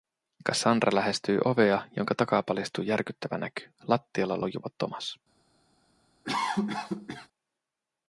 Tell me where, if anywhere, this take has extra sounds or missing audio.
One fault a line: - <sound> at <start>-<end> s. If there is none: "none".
- cough at 6.2-7.3 s